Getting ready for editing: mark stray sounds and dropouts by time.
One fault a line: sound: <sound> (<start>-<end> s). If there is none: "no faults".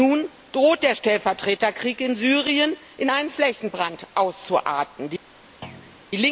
sound: thud (5.6-6.1 s)